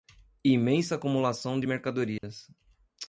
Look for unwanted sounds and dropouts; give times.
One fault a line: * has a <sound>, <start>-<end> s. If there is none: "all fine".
* has a dropout, 2.2-2.2 s